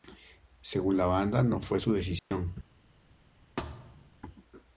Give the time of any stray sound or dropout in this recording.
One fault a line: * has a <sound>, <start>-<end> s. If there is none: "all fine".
* has a dropout, 2.2-2.3 s
* has a thud, 3.6-4.1 s